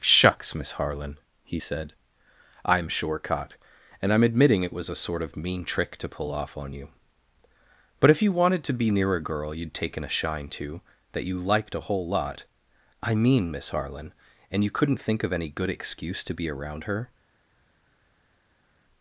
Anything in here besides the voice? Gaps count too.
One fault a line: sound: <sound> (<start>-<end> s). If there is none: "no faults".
no faults